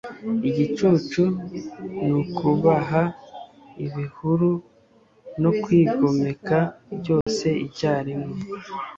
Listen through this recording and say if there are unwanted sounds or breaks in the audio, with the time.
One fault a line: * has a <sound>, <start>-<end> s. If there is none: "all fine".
* has a dropout, 7.2-7.3 s